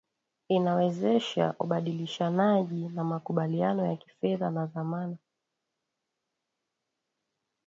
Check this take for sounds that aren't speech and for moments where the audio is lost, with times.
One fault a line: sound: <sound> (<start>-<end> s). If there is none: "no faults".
no faults